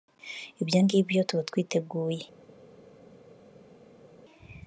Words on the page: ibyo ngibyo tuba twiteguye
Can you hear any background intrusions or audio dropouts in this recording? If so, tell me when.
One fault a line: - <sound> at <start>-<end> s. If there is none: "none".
none